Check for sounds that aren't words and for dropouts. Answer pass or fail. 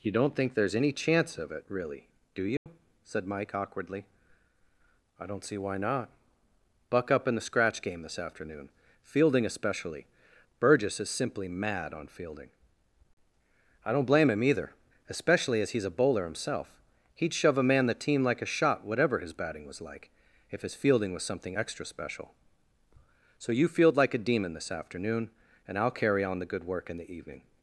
fail